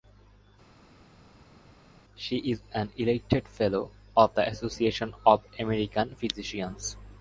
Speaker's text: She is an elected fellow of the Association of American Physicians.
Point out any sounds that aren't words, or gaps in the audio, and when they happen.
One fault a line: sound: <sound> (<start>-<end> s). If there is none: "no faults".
no faults